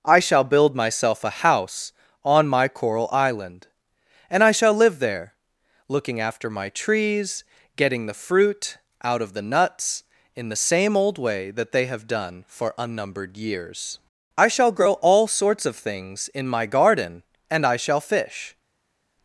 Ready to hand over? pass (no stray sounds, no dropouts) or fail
pass